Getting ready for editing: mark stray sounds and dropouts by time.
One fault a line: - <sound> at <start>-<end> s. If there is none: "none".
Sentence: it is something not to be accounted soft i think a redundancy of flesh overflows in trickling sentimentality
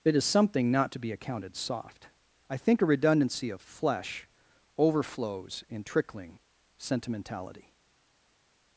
none